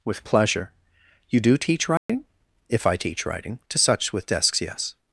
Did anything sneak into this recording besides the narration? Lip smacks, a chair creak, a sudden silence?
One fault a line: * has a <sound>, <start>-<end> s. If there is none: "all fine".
* has a dropout, 2.0-2.1 s